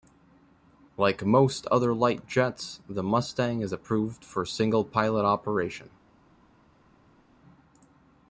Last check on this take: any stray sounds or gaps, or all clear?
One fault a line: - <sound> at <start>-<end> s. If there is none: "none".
none